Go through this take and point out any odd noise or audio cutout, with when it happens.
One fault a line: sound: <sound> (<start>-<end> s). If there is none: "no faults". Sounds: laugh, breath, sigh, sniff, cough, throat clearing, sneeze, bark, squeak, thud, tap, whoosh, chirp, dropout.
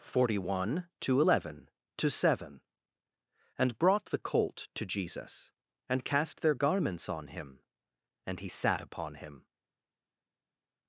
no faults